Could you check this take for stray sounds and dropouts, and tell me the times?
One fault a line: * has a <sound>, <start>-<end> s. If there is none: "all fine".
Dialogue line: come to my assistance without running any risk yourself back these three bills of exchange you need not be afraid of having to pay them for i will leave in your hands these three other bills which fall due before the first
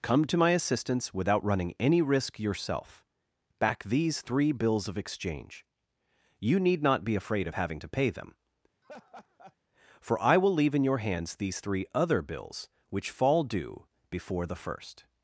* has a laugh, 8.8-9.6 s